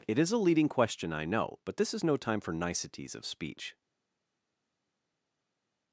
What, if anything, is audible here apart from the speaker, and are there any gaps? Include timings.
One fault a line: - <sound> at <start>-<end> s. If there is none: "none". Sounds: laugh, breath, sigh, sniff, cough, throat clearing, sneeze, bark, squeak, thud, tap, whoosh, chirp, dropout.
none